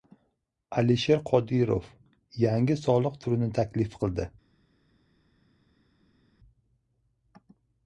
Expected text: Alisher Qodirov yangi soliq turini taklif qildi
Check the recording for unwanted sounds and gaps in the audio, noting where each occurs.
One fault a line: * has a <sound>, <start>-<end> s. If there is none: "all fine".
all fine